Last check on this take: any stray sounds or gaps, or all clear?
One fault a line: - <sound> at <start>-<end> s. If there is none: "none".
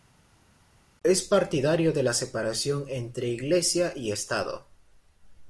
none